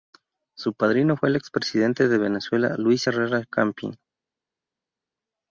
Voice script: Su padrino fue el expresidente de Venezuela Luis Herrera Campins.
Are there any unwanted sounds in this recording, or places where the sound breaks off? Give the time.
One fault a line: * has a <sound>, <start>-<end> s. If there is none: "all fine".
all fine